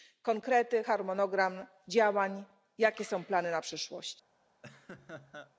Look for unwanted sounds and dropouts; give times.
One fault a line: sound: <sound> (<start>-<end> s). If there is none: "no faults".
sound: laugh (4.6-5.5 s)